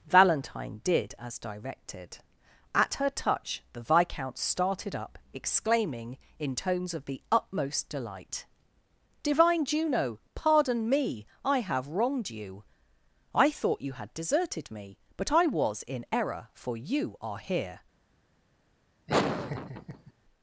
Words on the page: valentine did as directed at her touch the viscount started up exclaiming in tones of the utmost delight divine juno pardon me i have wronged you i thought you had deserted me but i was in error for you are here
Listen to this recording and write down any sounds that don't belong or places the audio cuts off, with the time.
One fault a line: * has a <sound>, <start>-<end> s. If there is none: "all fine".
* has a laugh, 19.1-20.1 s